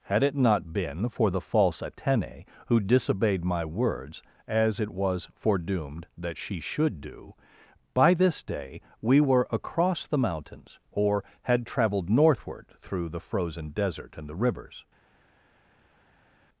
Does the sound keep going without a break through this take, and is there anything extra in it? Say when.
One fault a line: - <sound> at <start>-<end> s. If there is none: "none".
none